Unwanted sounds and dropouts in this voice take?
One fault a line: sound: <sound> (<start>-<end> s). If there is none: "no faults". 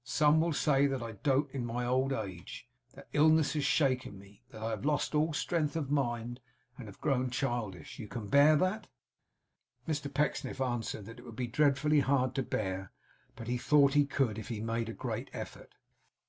no faults